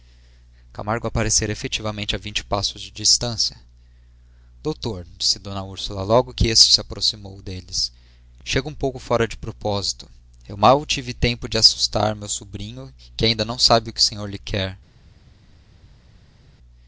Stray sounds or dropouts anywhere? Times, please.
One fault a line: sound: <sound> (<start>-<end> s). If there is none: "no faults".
no faults